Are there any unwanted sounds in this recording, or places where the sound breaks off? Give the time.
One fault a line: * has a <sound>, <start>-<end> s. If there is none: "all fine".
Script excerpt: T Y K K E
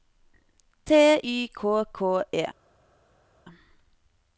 all fine